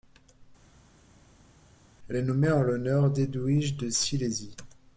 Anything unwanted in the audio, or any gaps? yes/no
no